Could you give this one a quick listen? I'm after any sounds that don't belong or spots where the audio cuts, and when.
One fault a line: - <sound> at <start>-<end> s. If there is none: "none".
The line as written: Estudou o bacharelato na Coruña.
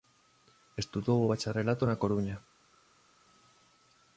none